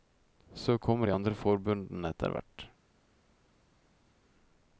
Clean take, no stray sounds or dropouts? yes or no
yes